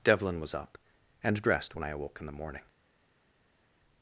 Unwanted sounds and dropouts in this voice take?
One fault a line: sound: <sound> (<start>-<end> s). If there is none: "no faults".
no faults